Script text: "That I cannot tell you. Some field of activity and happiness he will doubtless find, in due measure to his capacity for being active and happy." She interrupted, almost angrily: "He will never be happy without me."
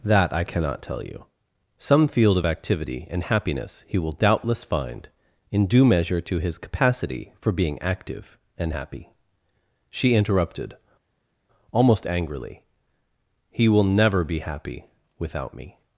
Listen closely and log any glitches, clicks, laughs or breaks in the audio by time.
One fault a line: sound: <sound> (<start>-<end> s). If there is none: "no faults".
no faults